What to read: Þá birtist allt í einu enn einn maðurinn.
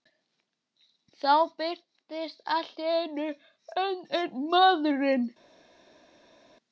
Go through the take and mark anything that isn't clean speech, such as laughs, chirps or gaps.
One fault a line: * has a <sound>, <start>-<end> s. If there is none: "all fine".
all fine